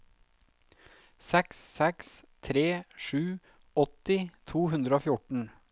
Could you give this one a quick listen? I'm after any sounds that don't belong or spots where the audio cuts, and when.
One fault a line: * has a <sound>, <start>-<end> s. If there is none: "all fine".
all fine